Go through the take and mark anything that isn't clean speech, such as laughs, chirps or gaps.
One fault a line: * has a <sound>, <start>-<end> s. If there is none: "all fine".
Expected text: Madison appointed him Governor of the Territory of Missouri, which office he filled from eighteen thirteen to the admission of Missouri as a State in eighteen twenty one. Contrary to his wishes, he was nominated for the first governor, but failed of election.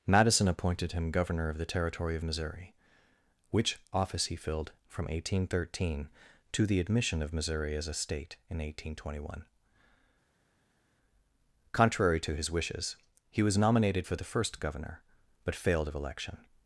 all fine